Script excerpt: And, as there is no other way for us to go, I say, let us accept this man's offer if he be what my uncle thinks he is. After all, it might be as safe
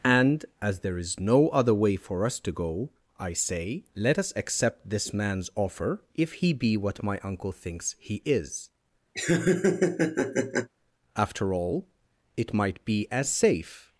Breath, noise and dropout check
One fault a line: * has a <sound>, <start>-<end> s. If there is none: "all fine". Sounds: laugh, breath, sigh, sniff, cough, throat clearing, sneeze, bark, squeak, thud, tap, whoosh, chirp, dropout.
* has a laugh, 9.1-10.7 s